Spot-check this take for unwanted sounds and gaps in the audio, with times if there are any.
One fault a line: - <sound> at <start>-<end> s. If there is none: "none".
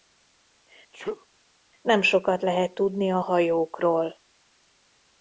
- sneeze at 0.9-1.3 s